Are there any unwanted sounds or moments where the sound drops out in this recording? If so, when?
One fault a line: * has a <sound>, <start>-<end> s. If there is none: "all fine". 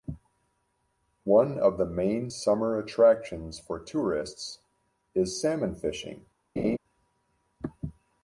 * has a laugh, 6.6-6.8 s